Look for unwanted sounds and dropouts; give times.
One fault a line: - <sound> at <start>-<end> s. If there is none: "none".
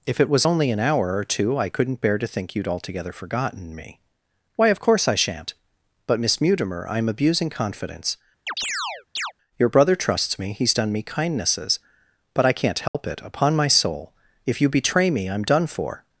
- chirp at 8.5-9.3 s
- dropout at 12.9-12.9 s